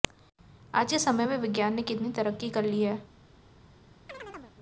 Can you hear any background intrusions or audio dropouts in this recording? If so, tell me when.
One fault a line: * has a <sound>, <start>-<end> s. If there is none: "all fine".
* has a chirp, 4.1-4.6 s